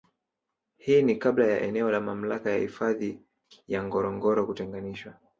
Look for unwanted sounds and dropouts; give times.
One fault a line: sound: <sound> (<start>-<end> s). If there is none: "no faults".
no faults